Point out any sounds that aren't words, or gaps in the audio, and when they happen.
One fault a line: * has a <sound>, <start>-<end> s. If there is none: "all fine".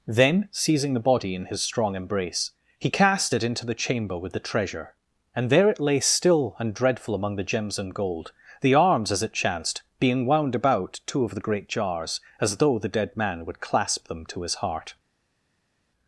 all fine